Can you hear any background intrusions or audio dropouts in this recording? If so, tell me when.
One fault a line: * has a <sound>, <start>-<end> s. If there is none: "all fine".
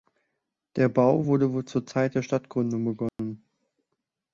* has a dropout, 3.1-3.2 s